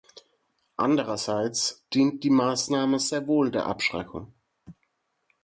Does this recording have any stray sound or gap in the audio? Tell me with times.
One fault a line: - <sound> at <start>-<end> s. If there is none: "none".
none